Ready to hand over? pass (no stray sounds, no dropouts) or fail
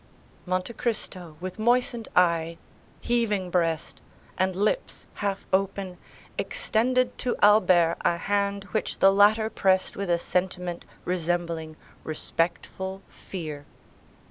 pass